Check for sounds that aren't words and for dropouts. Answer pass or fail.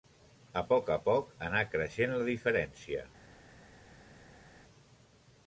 pass